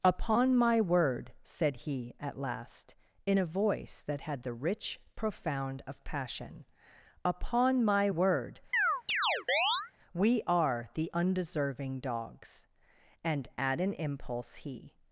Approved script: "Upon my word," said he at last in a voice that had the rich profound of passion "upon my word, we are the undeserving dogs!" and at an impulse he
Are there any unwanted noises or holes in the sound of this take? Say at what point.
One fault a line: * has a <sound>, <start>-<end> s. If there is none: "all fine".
* has a chirp, 8.7-9.9 s